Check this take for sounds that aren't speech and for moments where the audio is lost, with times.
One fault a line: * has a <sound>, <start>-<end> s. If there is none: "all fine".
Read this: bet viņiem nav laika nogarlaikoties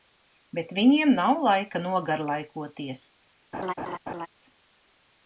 * has a laugh, 3.5-4.3 s